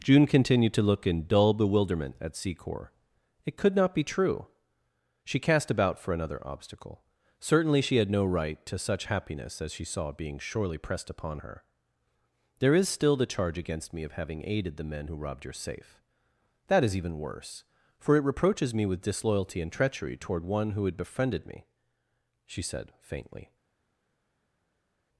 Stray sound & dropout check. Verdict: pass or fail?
pass